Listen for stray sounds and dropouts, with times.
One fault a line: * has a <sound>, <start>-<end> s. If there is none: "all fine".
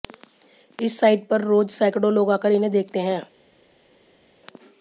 all fine